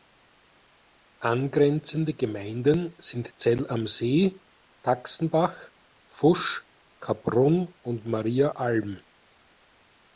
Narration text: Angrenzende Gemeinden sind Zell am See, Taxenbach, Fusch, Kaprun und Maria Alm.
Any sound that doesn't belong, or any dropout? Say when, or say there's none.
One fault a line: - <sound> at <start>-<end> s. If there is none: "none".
none